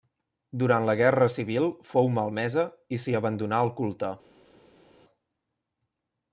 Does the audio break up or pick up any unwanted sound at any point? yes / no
no